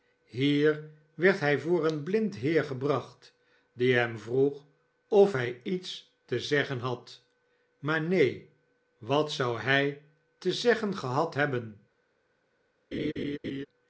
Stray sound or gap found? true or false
true